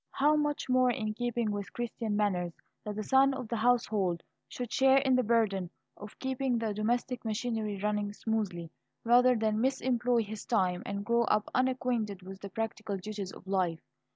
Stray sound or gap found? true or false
false